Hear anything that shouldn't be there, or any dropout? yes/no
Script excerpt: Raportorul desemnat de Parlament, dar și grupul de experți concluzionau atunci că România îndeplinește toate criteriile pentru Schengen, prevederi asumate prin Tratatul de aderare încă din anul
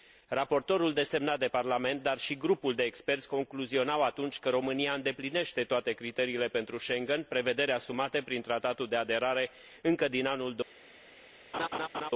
yes